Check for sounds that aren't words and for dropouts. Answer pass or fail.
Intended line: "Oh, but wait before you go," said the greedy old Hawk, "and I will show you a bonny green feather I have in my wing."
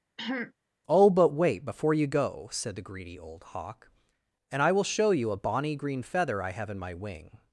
fail